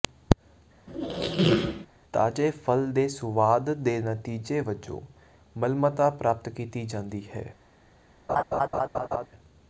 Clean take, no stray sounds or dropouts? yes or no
no